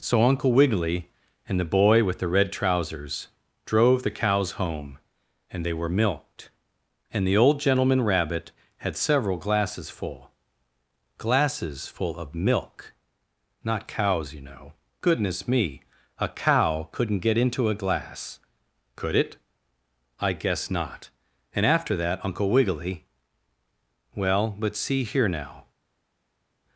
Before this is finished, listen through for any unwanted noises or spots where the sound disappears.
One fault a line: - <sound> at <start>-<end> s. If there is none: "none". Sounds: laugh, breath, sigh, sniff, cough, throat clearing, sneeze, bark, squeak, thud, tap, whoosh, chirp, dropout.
none